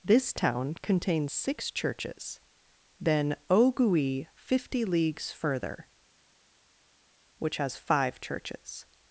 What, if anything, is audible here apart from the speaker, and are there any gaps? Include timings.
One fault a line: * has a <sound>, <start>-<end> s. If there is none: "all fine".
all fine